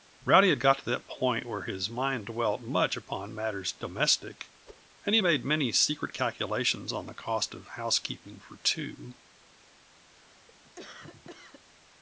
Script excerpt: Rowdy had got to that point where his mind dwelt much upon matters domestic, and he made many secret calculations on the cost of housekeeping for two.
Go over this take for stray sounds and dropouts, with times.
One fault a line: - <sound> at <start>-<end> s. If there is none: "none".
- whoosh at 4.7-4.8 s
- cough at 10.1-11.6 s